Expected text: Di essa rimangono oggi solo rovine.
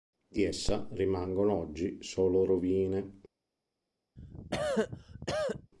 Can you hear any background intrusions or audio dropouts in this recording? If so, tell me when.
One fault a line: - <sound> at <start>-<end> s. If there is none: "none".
- cough at 4.2-5.7 s